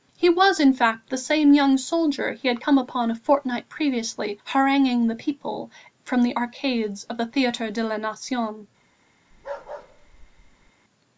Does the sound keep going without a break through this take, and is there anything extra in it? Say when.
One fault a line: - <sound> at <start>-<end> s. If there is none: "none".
- bark at 9.3-10.7 s